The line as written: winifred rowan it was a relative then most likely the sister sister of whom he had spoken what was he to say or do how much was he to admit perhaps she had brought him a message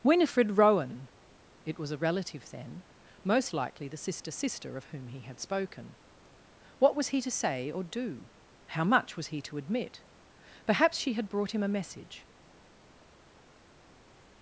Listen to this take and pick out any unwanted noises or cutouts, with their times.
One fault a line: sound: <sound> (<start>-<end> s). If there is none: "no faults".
no faults